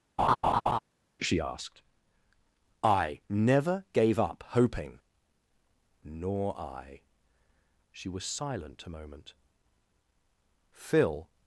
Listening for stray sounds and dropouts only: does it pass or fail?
fail